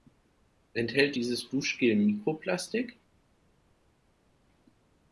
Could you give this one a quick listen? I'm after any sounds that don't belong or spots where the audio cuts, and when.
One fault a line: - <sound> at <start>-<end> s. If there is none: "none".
none